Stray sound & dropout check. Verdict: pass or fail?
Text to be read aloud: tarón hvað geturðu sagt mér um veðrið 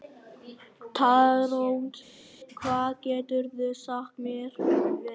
pass